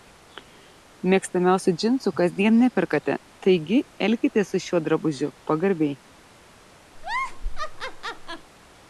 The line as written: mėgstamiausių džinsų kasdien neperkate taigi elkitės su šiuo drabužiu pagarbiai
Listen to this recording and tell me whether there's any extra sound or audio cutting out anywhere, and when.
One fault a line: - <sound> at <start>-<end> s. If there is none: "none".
- laugh at 7.0-8.5 s